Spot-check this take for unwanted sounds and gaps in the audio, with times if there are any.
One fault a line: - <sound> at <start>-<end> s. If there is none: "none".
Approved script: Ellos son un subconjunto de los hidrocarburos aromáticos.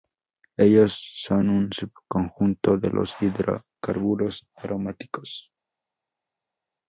none